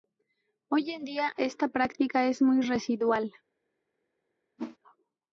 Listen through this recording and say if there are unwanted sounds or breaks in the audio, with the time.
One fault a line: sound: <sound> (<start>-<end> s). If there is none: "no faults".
sound: whoosh (4.6-4.8 s)